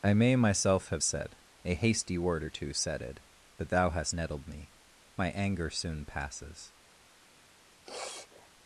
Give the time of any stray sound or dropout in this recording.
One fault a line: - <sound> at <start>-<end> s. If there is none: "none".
- sniff at 7.8-8.5 s